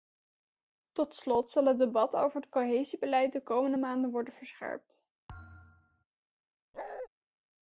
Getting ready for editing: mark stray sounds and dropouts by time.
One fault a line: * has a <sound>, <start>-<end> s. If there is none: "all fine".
* has a thud, 5.3-6.0 s
* has a bark, 6.7-7.1 s